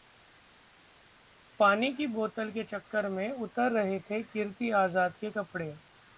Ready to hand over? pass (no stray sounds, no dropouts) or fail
pass